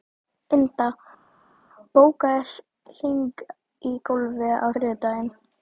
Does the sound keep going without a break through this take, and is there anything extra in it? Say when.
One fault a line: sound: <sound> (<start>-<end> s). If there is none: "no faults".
no faults